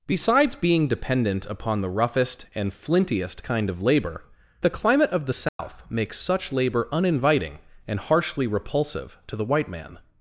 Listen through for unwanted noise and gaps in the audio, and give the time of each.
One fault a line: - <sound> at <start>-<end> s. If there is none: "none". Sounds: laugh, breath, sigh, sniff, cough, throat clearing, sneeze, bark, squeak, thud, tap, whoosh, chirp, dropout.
- dropout at 5.5-5.6 s